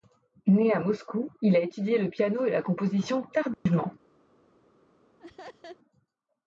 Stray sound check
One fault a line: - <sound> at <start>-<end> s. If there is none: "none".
- dropout at 3.5-3.7 s
- laugh at 5.2-5.8 s